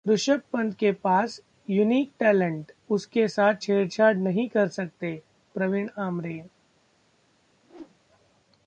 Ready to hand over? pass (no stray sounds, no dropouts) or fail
fail